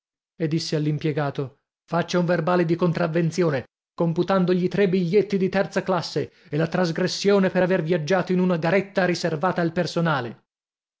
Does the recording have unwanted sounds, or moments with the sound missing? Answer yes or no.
no